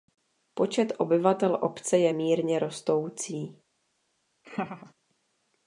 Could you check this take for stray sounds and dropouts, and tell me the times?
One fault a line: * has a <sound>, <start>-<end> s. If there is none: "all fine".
* has a laugh, 4.4-4.9 s